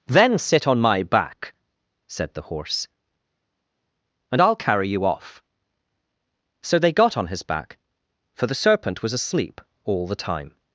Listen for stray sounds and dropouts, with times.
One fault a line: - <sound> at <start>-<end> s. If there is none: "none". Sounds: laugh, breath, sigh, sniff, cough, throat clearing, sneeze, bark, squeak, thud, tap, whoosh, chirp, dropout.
none